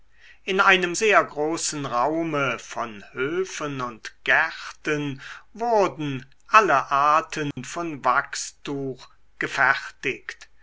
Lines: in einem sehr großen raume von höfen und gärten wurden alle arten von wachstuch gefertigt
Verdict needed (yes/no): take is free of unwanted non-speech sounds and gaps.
no